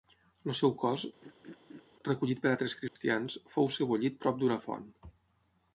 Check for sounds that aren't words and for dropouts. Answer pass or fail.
fail